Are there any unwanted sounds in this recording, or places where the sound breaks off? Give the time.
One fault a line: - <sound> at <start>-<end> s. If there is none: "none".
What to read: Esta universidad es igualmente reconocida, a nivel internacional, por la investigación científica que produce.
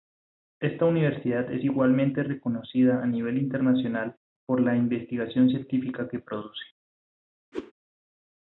- whoosh at 7.5-7.7 s